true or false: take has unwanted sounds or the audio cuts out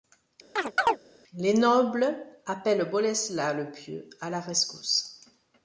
true